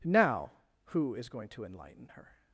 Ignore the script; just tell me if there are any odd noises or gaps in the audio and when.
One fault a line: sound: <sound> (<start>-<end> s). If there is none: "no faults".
no faults